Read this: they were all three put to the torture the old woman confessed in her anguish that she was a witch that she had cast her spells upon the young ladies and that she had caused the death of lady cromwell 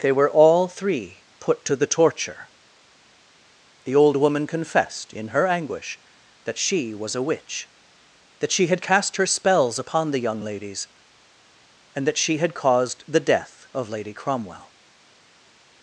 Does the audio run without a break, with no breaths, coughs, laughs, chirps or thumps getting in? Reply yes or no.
yes